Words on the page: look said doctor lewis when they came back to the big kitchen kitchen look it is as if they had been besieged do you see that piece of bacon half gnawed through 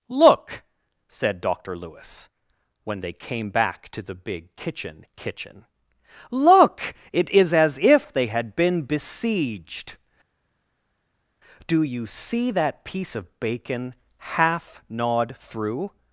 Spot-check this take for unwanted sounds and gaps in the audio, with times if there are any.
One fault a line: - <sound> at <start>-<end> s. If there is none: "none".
none